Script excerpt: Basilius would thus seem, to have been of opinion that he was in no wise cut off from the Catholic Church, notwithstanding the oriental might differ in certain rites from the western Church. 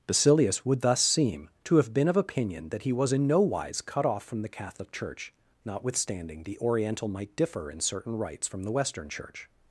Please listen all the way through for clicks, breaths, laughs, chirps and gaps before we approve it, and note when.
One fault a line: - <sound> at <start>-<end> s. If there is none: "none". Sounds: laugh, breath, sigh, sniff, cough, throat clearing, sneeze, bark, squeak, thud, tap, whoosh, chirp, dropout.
none